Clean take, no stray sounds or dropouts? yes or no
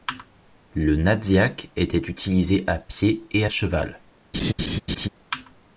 no